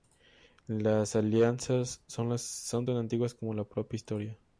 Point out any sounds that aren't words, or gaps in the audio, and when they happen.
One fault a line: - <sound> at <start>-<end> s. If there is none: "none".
none